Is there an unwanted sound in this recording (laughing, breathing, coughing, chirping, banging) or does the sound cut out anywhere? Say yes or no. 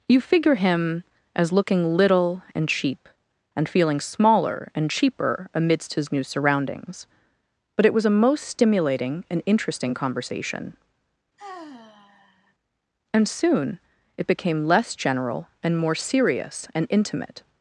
yes